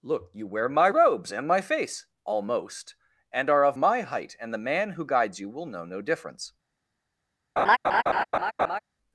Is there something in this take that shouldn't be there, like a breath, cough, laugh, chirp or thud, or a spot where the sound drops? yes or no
yes